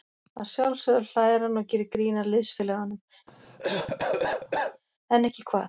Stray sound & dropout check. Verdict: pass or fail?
fail